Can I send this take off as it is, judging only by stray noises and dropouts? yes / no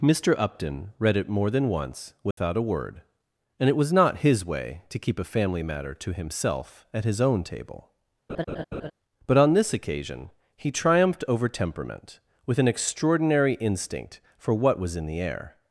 no